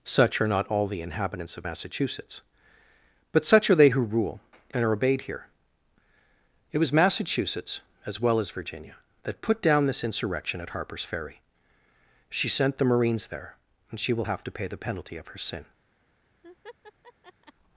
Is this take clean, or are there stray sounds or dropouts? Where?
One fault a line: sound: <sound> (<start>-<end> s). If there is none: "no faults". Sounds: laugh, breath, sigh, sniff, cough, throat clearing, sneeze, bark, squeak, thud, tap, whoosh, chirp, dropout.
sound: laugh (16.4-17.5 s)